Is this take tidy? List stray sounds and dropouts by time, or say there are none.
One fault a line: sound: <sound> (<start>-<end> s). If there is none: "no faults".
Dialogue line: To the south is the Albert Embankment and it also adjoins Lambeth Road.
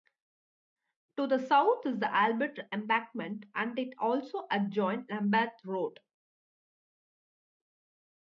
no faults